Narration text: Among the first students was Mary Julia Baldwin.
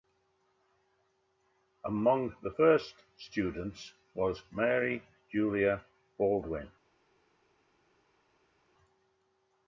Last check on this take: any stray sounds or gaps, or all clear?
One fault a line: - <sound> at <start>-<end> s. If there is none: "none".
none